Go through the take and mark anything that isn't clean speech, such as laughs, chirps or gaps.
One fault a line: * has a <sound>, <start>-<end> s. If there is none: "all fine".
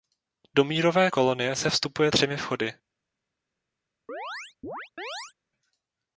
* has a chirp, 4.1-5.3 s